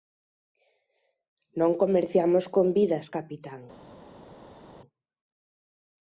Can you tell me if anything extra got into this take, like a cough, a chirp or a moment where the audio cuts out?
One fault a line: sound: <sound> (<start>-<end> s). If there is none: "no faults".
no faults